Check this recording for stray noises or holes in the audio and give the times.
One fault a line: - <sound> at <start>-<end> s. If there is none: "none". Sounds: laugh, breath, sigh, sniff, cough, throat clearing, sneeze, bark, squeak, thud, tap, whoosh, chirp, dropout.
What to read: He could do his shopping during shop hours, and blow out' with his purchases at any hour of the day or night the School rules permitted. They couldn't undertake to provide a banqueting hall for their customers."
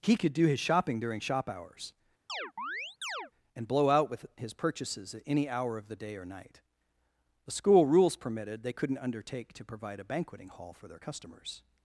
- chirp at 2.3-3.3 s